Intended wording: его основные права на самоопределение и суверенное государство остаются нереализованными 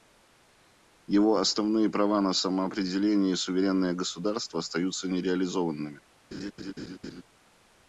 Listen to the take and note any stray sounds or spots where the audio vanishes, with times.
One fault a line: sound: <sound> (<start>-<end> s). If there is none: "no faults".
sound: laugh (6.3-7.2 s)